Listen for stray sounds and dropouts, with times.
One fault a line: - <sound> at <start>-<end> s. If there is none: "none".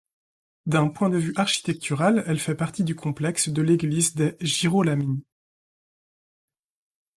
none